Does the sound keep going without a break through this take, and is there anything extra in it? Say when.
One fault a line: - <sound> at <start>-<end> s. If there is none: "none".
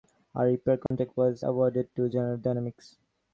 - dropout at 0.9-0.9 s